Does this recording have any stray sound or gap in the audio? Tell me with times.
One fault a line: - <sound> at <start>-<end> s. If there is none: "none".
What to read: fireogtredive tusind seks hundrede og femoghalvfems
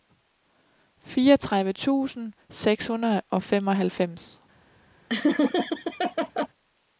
- laugh at 5.1-6.5 s